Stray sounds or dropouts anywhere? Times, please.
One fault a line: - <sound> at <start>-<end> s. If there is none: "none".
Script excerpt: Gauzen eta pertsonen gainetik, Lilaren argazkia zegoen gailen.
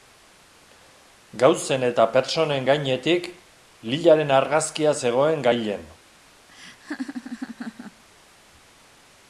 - laugh at 6.5-8.0 s